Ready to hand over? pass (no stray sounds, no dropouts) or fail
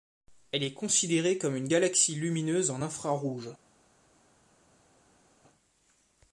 pass